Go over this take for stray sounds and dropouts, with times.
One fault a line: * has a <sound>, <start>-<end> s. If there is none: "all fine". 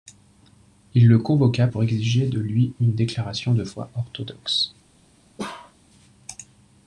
* has a bark, 5.4-5.7 s